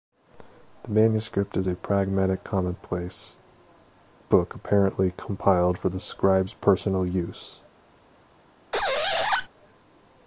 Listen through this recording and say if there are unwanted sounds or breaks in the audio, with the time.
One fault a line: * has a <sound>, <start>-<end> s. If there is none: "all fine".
* has a squeak, 8.7-9.5 s